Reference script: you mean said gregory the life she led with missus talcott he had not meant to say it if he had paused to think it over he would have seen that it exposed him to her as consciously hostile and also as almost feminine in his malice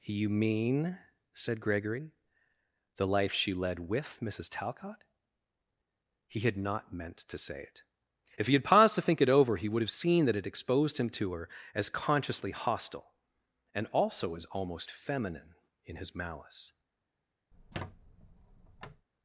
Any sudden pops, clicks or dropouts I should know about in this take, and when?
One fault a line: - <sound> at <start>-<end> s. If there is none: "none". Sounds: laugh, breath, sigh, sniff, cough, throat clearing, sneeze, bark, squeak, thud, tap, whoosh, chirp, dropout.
- squeak at 17.5-19.1 s